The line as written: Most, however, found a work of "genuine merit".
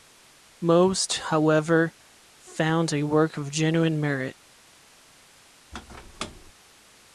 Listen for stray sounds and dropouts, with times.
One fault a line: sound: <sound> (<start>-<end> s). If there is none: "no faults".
sound: squeak (5.7-6.5 s)